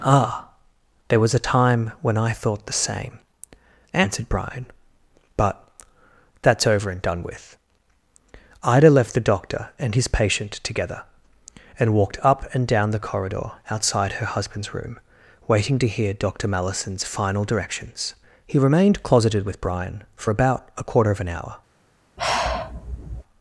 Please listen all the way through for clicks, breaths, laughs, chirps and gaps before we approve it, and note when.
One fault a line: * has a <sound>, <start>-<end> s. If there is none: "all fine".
* has a sigh, 22.2-23.2 s